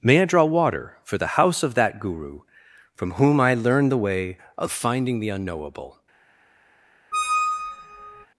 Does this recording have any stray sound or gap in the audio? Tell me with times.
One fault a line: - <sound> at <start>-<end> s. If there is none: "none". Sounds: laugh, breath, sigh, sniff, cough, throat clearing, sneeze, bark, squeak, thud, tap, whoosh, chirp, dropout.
- squeak at 7.1-8.3 s